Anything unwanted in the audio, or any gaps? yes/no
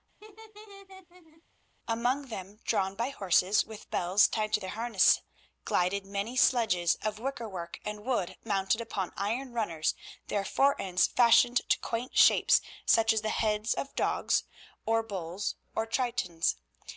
yes